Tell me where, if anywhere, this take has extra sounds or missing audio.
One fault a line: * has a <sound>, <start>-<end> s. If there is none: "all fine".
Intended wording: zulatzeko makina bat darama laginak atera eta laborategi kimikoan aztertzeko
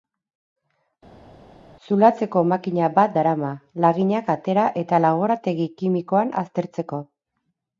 all fine